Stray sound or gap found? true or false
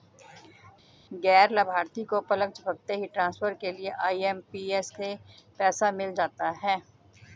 false